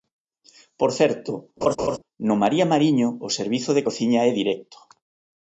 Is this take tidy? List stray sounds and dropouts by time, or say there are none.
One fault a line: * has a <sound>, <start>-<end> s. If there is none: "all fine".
* has a laugh, 1.6-2.0 s